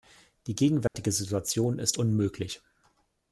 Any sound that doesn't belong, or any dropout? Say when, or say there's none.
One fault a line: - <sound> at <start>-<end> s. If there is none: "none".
- dropout at 0.9-0.9 s